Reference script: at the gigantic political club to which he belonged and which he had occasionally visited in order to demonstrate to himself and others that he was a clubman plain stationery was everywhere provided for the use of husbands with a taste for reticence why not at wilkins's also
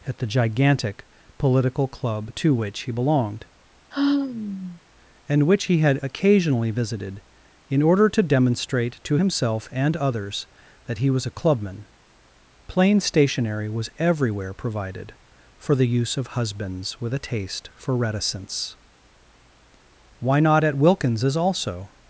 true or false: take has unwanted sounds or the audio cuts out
true